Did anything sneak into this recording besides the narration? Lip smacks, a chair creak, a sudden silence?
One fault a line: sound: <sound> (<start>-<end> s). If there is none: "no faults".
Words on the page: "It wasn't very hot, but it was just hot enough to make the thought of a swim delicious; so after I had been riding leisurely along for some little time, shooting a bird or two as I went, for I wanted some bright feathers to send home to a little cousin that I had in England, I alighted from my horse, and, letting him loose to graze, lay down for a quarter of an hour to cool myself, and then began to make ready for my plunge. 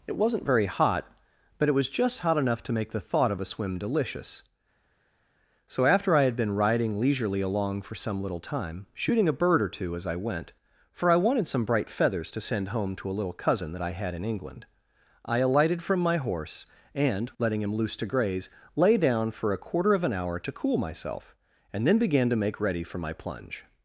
no faults